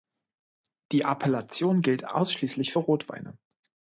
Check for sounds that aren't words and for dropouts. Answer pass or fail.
pass